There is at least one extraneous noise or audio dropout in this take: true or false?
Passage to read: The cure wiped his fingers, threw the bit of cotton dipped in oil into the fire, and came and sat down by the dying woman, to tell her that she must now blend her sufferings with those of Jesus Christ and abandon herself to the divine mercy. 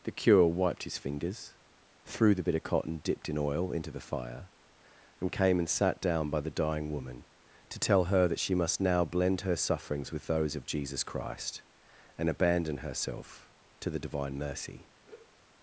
true